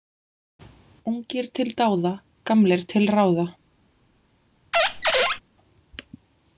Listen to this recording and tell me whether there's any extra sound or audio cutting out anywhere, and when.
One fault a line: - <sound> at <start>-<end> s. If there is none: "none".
- squeak at 4.7-5.4 s